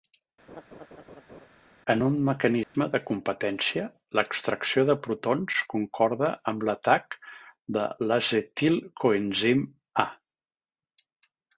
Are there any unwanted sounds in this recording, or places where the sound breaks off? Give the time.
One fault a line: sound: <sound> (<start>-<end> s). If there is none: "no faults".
sound: laugh (0.5-1.5 s)
sound: dropout (2.6-2.7 s)